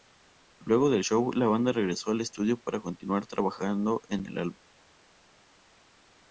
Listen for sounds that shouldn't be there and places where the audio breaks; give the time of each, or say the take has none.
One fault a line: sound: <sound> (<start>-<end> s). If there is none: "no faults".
no faults